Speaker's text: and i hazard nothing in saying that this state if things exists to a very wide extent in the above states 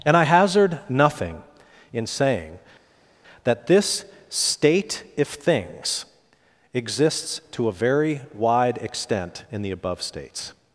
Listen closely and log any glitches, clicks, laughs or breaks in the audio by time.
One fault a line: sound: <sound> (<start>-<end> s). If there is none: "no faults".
no faults